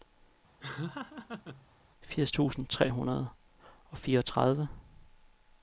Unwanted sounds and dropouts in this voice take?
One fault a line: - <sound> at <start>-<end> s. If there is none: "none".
- laugh at 0.6-1.7 s